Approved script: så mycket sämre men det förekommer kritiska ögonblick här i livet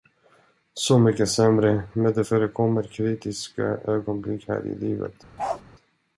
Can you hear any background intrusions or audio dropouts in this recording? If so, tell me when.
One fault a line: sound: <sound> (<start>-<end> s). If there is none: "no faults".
sound: bark (5.4-5.6 s)